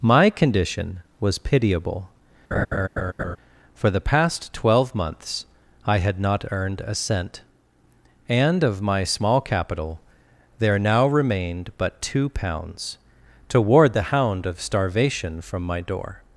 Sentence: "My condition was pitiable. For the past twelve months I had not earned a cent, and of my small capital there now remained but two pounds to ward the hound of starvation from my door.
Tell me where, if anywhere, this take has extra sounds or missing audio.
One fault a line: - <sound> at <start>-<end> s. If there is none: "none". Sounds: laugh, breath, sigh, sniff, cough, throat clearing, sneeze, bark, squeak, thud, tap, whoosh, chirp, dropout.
- laugh at 2.5-3.4 s